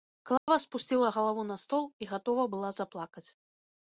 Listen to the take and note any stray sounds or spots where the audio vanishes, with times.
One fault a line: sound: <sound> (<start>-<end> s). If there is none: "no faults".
sound: dropout (0.4-0.5 s)